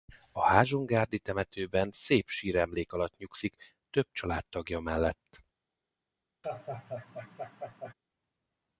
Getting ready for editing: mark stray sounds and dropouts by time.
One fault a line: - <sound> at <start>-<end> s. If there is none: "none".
- laugh at 6.4-7.9 s